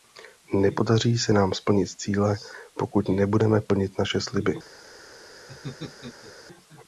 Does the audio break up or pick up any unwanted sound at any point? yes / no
yes